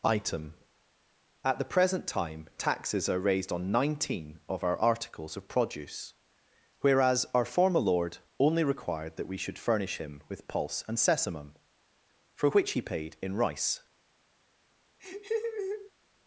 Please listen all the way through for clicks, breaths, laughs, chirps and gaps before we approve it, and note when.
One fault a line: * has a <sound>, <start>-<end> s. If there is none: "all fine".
* has a laugh, 15.0-15.9 s